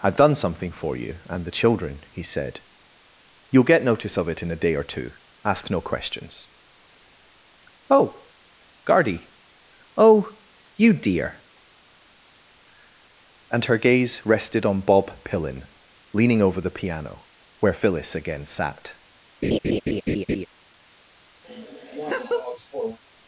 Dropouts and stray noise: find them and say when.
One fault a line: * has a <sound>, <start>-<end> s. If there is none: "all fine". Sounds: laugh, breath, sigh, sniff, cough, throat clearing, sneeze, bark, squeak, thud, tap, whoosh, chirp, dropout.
* has a laugh, 19.4-20.5 s
* has a laugh, 21.4-23.0 s